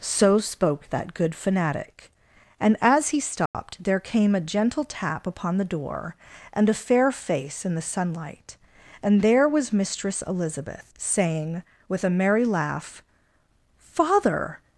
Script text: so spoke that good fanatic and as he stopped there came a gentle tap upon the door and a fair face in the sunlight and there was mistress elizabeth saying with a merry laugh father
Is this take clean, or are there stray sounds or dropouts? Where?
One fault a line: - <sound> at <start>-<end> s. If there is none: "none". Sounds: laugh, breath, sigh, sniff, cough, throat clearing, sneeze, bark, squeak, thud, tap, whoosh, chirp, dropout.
- dropout at 3.5-3.5 s